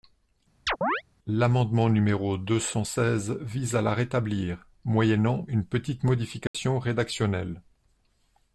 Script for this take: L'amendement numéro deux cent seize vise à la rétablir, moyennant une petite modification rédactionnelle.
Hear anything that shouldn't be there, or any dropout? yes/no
yes